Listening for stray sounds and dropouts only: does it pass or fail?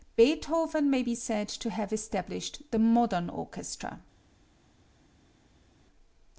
pass